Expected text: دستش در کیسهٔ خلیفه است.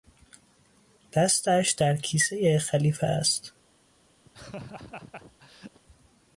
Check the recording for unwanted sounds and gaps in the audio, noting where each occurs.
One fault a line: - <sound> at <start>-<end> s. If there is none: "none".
- laugh at 4.2-5.8 s